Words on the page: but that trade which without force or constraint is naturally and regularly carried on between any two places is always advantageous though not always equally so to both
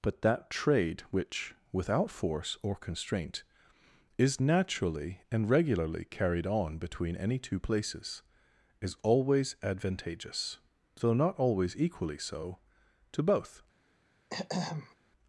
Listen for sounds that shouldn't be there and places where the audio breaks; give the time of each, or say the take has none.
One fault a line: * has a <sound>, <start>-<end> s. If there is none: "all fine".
* has a throat clearing, 14.3-15.0 s